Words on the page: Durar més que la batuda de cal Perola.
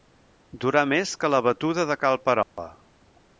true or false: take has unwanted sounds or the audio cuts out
true